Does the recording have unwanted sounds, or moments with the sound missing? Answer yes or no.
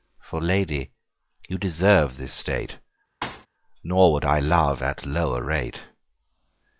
yes